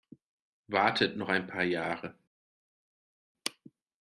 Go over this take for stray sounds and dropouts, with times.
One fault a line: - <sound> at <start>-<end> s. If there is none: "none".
none